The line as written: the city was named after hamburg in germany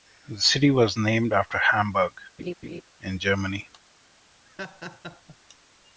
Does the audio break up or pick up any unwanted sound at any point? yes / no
yes